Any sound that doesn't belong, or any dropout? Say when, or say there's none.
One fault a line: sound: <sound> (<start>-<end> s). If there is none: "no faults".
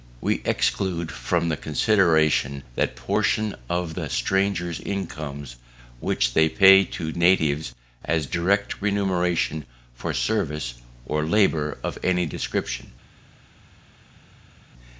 no faults